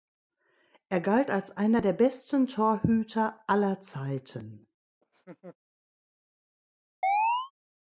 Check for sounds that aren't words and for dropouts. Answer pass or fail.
fail